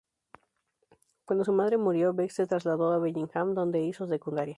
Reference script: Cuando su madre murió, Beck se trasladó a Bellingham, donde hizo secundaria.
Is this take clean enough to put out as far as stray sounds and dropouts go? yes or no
yes